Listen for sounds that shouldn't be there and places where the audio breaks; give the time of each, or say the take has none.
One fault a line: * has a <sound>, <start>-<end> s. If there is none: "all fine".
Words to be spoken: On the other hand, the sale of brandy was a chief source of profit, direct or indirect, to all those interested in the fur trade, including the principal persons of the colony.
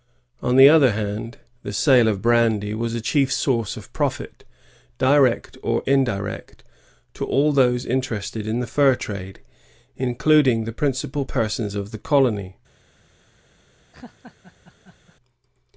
* has a laugh, 13.9-15.2 s